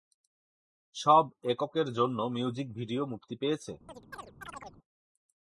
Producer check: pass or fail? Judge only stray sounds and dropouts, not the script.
fail